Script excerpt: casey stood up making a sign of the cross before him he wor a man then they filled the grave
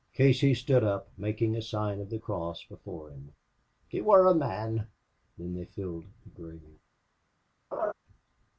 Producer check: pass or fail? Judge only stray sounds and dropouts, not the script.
fail